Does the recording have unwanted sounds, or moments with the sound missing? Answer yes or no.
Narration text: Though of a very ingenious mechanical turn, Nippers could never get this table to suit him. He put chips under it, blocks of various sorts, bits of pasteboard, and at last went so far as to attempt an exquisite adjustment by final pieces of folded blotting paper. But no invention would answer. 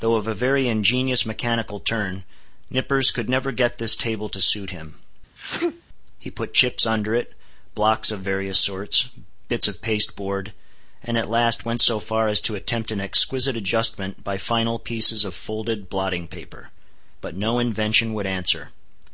yes